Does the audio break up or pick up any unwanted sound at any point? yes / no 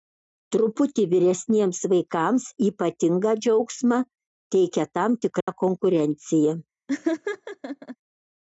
yes